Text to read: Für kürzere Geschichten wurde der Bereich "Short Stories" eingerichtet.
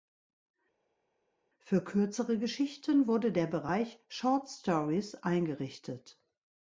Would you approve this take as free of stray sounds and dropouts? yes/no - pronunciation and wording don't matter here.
yes